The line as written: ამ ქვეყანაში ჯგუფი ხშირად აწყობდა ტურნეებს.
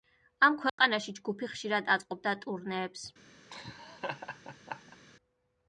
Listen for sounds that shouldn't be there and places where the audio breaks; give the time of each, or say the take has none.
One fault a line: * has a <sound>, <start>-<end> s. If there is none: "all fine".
* has a dropout, 0.7-0.8 s
* has a laugh, 3.5-5.0 s